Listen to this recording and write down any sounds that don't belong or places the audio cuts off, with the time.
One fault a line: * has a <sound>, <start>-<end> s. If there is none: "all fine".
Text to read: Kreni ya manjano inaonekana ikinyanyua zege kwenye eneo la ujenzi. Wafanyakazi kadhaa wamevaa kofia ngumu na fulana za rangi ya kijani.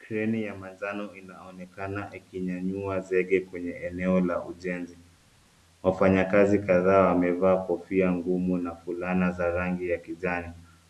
all fine